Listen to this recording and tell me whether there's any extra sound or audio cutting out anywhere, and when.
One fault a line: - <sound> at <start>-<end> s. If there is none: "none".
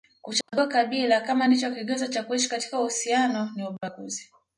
- dropout at 0.4-0.5 s